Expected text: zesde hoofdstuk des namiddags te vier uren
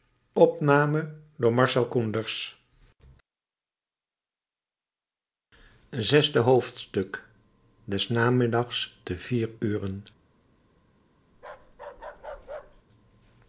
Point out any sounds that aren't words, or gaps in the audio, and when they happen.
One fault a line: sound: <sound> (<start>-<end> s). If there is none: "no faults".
sound: bark (11.3-12.8 s)